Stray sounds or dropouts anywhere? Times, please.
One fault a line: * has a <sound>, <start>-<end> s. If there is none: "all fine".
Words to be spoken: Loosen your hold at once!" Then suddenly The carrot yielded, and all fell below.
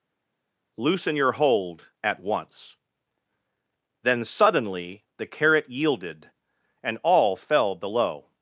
all fine